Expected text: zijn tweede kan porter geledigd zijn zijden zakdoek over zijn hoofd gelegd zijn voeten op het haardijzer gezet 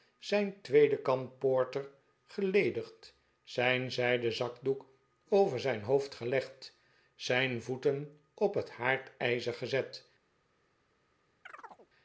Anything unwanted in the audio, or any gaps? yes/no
yes